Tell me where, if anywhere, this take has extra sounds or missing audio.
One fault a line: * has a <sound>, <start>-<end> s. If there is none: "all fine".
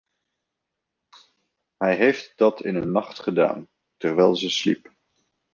all fine